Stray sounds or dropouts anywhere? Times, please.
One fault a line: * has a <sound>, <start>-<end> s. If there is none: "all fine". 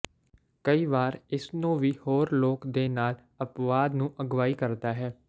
all fine